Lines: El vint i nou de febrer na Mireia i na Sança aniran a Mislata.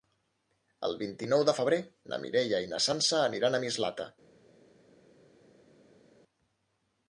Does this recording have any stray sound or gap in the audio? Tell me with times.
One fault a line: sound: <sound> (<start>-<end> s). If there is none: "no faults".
no faults